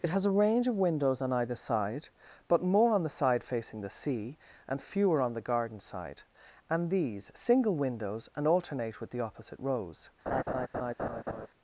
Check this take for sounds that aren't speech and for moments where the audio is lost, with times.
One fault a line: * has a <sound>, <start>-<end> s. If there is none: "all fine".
* has a laugh, 10.3-11.5 s